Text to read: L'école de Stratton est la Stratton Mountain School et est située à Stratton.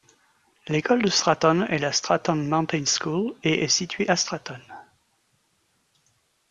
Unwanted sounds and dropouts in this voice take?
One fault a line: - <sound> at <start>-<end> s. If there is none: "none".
none